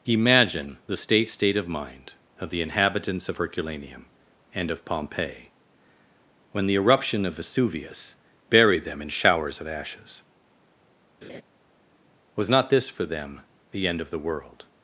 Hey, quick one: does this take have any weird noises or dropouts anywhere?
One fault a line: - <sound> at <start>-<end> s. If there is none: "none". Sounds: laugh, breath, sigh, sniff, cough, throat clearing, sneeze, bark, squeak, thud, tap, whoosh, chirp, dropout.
- laugh at 11.2-11.4 s